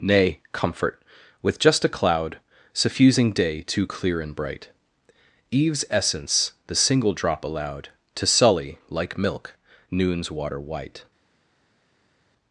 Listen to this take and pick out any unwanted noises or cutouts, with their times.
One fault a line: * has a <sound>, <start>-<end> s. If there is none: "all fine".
all fine